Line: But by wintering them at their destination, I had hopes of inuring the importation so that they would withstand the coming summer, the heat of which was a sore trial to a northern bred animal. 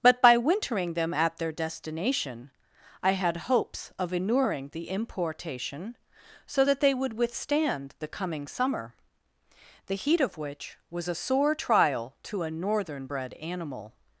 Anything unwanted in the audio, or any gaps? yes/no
no